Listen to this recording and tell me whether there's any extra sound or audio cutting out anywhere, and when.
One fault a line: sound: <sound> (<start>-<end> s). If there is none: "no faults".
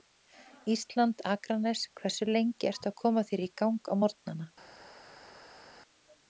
no faults